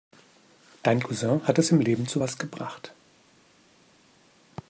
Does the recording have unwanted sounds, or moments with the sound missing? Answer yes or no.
no